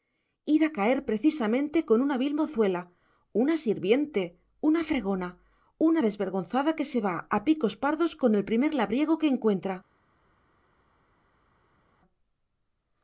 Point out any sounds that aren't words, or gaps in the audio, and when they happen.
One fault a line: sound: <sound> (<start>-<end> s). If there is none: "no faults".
no faults